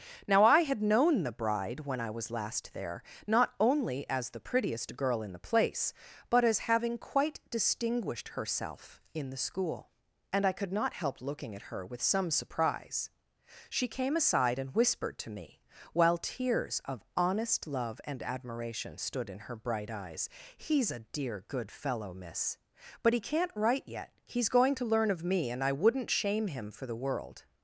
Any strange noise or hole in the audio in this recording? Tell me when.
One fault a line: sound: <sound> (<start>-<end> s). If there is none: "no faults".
no faults